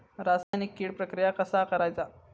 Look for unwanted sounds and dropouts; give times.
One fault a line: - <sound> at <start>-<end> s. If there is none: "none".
- dropout at 0.4-0.5 s